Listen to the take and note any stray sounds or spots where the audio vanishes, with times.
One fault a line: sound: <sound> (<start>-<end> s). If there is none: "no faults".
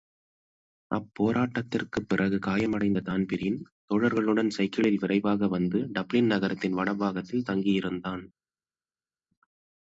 no faults